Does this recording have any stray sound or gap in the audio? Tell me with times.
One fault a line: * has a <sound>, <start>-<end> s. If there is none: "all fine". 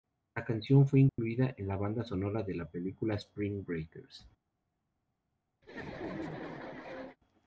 * has a dropout, 1.1-1.2 s
* has a laugh, 5.6-7.2 s